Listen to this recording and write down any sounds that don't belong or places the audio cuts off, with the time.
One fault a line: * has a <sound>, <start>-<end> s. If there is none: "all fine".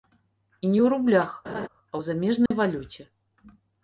* has a laugh, 1.4-1.7 s
* has a dropout, 2.5-2.5 s